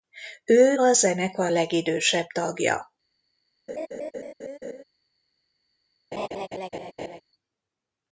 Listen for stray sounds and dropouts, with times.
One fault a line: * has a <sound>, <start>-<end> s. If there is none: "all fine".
* has a laugh, 3.7-4.8 s
* has a laugh, 6.1-7.2 s